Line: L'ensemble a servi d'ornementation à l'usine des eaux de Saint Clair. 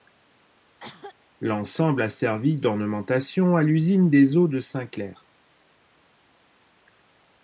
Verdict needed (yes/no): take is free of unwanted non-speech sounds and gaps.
no